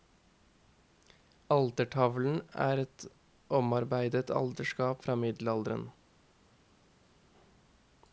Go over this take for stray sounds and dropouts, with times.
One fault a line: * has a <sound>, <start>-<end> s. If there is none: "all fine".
all fine